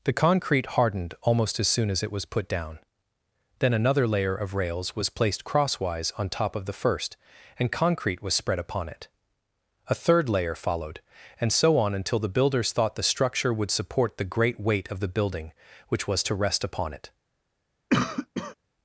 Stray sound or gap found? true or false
true